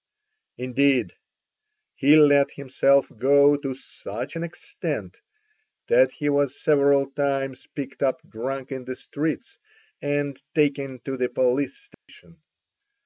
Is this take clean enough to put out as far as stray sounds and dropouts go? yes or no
no